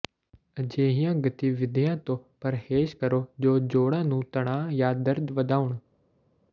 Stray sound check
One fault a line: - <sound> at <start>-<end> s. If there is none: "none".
none